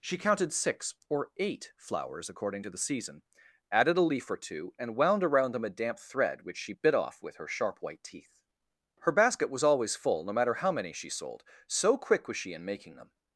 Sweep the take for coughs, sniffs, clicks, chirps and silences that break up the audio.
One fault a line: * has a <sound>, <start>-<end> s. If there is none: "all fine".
all fine